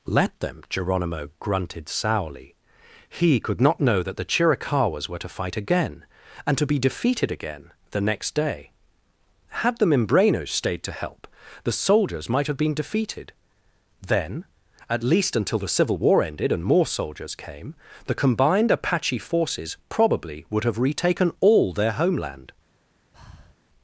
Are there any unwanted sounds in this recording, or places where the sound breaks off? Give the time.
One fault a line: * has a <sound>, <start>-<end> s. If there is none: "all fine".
* has a breath, 23.1-23.5 s